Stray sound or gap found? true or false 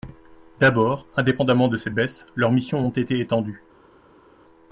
false